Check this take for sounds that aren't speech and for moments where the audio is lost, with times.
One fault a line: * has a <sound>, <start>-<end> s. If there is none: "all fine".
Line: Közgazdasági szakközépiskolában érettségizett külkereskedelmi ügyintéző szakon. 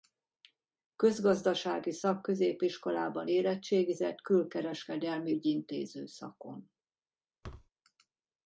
* has a thud, 7.4-7.7 s